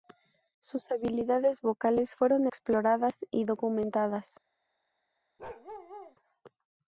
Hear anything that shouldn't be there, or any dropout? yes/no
yes